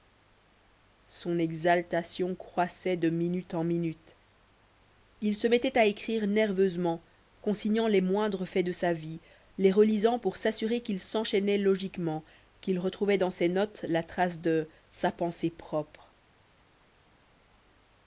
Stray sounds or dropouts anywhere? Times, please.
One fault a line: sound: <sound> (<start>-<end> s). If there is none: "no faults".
no faults